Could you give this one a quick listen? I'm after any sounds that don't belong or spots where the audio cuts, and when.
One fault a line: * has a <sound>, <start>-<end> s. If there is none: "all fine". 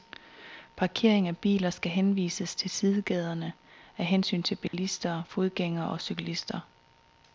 * has a dropout, 4.7-4.7 s